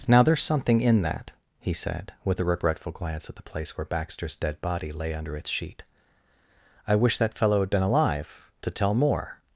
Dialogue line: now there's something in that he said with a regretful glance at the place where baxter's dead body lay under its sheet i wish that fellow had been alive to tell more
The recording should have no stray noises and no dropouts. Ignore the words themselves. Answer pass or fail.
pass